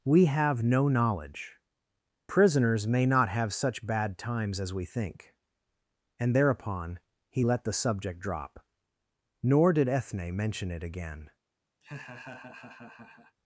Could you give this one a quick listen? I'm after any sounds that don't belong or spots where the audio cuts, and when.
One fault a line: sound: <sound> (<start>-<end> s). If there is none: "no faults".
sound: laugh (11.8-13.4 s)